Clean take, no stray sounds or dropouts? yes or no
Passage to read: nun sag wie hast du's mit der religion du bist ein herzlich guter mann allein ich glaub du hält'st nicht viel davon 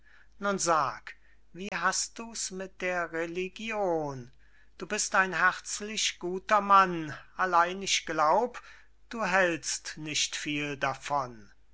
no